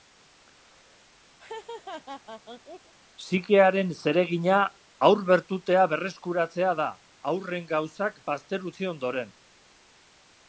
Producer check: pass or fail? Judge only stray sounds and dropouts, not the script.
fail